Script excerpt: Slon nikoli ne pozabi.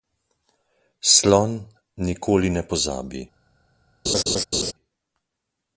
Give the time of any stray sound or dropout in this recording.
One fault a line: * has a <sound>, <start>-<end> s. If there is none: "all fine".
* has a laugh, 4.1-4.7 s